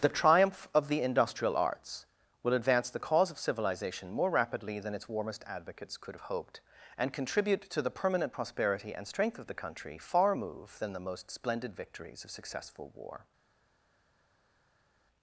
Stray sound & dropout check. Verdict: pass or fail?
pass